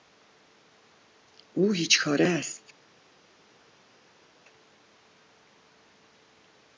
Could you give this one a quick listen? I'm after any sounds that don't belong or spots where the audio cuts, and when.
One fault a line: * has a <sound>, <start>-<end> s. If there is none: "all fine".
all fine